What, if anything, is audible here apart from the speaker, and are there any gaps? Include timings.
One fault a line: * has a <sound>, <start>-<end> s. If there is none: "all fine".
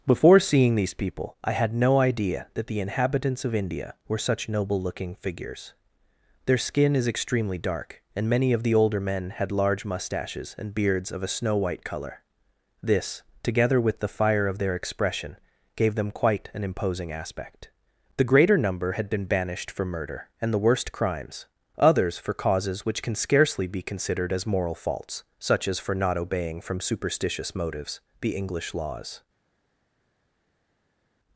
all fine